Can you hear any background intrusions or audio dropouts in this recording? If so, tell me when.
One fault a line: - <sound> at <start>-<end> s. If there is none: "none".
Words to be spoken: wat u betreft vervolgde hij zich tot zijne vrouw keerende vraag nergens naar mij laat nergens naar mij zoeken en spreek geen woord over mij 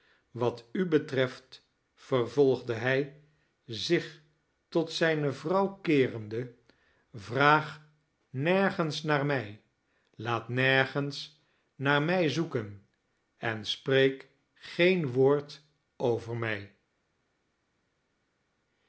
none